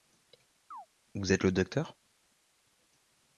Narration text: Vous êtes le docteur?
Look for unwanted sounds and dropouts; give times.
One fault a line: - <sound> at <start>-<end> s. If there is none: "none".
- chirp at 0.7-0.9 s